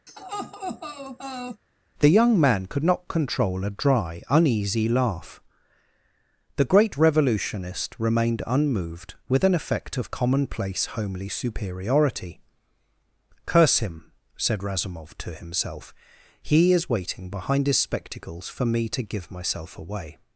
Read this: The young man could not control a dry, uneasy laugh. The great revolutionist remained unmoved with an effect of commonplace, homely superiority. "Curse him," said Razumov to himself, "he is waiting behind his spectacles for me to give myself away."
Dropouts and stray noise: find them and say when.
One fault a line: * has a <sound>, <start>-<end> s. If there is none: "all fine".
* has a laugh, 0.1-1.6 s